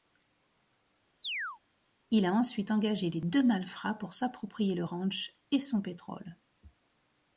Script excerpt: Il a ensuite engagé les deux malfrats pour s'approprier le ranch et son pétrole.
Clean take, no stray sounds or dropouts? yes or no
no